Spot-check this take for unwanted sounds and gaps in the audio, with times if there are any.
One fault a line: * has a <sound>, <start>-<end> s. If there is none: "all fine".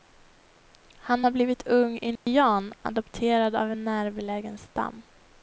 * has a dropout, 2.2-2.3 s